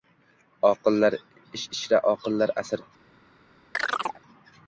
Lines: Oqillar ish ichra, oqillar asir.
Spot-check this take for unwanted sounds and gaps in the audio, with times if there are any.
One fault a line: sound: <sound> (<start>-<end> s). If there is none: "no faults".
sound: chirp (3.7-4.2 s)